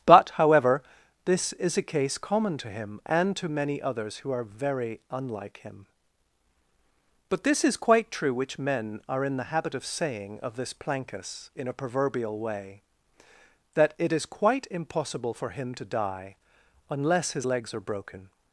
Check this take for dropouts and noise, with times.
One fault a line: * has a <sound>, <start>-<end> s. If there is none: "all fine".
all fine